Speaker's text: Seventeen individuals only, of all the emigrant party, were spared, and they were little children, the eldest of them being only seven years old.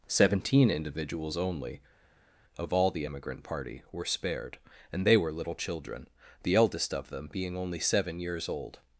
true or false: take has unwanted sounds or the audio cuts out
false